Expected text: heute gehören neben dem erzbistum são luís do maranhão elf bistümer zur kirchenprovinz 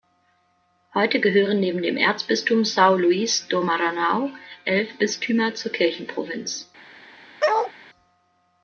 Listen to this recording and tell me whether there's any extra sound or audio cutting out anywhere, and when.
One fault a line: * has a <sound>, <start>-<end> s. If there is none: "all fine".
* has a bark, 7.4-7.7 s